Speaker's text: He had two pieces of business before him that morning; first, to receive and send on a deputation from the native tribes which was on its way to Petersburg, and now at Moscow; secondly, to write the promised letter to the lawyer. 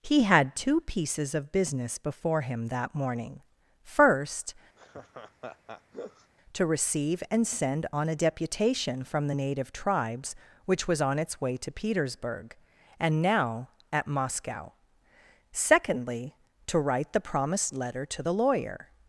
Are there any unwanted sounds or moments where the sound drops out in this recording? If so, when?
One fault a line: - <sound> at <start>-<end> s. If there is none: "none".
- laugh at 4.8-6.3 s